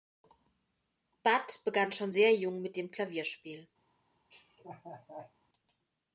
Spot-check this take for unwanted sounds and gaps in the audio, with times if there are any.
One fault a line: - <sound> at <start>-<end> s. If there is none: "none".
- laugh at 4.3-5.3 s